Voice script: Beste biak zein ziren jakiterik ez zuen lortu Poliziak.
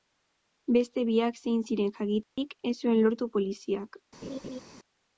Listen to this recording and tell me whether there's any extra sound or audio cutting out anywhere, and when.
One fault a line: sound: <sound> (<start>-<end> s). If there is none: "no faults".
sound: dropout (2.2-2.4 s)
sound: laugh (4.2-4.6 s)